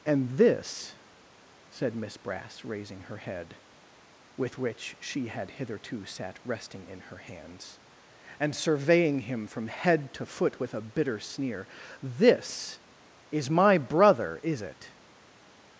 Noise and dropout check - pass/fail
pass